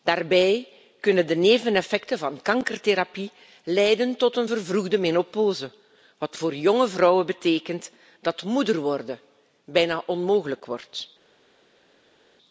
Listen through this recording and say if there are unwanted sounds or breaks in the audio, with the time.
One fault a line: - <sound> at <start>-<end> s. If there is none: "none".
none